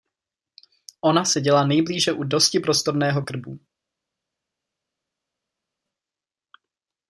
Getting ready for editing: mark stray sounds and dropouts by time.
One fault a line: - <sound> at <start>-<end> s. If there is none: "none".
none